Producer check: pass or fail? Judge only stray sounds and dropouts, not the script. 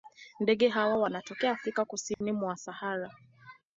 fail